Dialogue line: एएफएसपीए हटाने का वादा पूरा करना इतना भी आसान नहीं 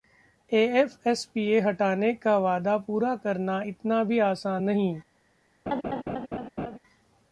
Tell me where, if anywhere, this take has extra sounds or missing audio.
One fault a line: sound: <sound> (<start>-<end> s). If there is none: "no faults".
sound: laugh (5.7-6.8 s)